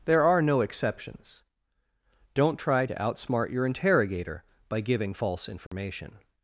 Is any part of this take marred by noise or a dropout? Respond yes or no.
yes